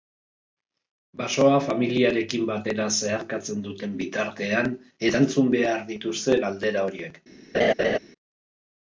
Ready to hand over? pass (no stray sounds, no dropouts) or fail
fail